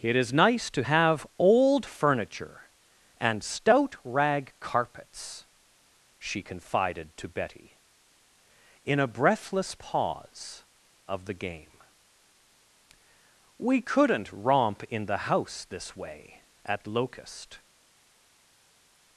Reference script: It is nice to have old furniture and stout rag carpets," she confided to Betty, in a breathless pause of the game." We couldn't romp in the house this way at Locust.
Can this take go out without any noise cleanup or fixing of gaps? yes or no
yes